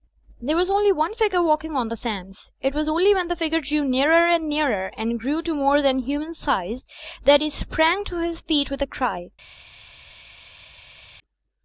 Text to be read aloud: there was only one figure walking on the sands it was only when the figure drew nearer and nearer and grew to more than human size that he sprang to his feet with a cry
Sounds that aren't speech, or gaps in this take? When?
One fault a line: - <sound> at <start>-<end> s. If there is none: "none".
none